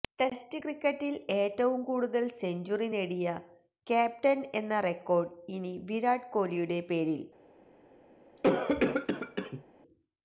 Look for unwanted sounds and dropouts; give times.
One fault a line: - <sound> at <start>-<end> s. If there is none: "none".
- cough at 8.4-9.6 s